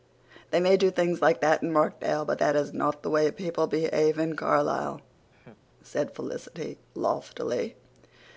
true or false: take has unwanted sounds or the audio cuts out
true